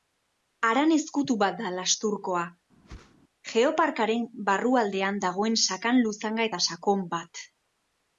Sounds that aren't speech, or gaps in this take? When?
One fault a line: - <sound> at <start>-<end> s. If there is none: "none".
- whoosh at 2.8-3.2 s